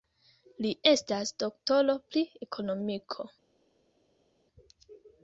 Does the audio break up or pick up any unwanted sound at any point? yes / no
no